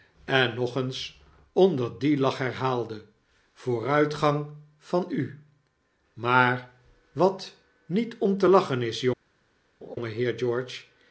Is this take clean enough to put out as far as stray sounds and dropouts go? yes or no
no